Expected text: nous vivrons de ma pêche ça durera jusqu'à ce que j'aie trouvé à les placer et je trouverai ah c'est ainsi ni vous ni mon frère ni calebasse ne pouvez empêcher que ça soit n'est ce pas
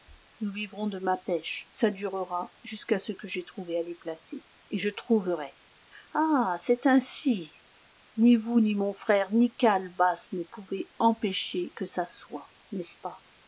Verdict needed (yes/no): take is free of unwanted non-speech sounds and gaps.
yes